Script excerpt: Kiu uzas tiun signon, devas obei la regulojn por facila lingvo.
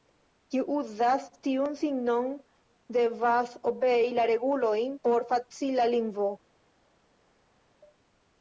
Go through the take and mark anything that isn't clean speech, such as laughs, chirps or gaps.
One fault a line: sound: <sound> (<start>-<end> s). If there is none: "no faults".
no faults